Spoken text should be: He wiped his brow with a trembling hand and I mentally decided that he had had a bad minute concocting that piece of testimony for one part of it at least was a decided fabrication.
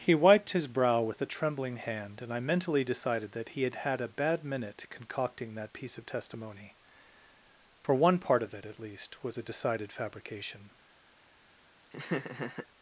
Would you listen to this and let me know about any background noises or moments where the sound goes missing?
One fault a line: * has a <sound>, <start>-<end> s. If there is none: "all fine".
* has a laugh, 11.9-12.7 s